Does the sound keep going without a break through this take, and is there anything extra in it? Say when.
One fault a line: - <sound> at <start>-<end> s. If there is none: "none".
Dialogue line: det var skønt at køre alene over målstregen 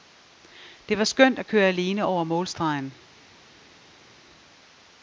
none